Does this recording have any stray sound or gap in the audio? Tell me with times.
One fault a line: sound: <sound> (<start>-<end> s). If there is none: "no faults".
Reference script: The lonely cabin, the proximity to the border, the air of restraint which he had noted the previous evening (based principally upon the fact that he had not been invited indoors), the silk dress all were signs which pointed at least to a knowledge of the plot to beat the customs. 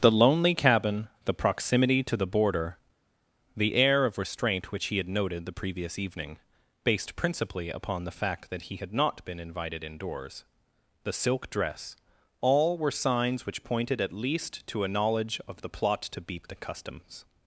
no faults